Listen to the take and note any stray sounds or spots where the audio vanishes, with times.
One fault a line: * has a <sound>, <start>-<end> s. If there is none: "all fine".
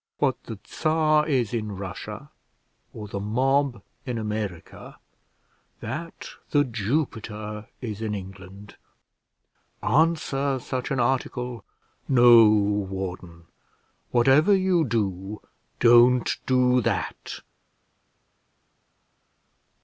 all fine